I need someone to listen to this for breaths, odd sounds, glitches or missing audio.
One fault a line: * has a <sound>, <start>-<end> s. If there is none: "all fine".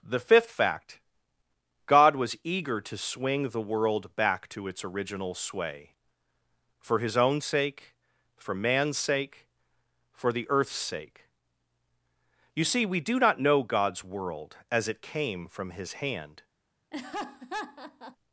* has a laugh, 16.9-18.2 s